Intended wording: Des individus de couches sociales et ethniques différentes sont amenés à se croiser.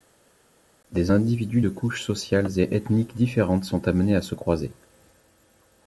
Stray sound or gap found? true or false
false